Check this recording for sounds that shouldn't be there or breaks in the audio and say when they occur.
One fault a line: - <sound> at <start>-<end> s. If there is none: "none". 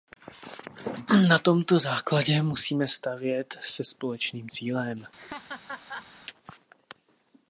- laugh at 5.2-6.1 s